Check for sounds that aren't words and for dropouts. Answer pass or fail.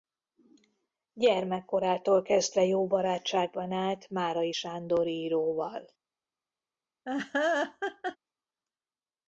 fail